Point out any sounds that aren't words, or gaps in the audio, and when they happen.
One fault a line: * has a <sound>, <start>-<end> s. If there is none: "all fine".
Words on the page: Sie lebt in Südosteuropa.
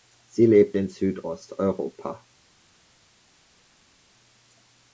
all fine